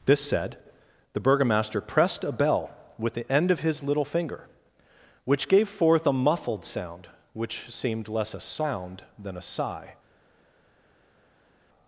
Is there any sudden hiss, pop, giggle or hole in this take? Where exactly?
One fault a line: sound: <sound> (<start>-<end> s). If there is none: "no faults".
no faults